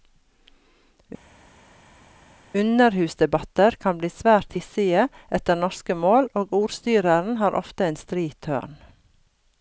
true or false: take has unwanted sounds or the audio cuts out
false